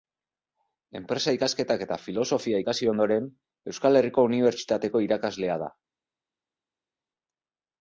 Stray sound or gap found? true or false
false